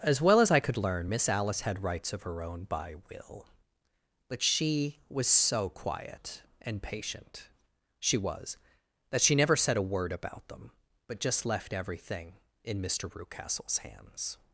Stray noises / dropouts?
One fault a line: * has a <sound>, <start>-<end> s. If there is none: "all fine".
all fine